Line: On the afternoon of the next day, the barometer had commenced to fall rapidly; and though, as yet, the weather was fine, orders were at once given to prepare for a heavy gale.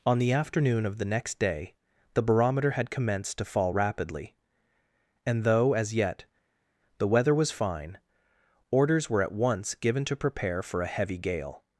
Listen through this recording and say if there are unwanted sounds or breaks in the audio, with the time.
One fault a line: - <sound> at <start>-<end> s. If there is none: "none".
none